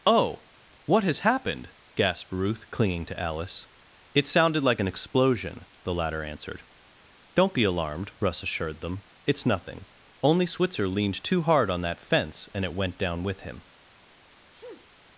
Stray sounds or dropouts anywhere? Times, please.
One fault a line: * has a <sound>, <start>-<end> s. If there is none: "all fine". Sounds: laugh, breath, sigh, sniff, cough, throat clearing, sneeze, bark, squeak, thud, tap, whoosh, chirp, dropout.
* has a sneeze, 14.5-14.9 s